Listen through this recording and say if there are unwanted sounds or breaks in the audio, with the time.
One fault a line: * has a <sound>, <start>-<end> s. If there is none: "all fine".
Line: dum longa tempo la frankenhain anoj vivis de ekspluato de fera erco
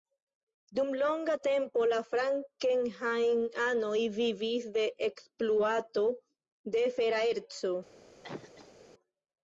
* has a cough, 8.2-8.8 s